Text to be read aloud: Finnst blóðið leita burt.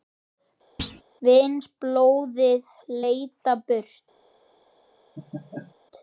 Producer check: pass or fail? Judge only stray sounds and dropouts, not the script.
fail